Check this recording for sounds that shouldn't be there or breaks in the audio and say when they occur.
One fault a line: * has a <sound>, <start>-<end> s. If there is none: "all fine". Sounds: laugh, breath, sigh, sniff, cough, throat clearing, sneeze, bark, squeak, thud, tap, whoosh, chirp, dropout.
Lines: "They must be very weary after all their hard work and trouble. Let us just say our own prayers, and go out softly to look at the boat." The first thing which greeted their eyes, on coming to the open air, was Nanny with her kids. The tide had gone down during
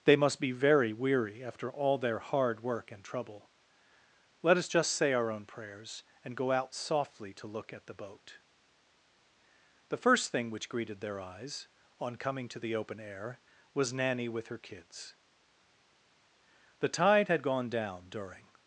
all fine